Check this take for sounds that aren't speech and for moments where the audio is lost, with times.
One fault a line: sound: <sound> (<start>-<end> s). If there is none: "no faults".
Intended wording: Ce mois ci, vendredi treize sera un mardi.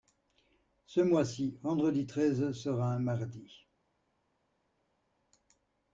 no faults